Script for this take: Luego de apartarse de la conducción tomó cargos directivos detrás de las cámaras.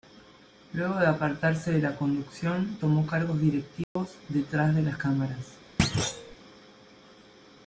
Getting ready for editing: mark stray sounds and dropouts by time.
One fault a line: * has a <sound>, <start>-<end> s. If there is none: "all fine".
* has a dropout, 3.8-4.0 s
* has a thud, 5.8-6.4 s